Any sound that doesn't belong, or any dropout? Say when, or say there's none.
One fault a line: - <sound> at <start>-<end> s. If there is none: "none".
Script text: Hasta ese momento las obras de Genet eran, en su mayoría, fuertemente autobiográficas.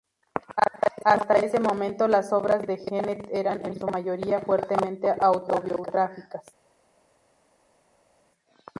none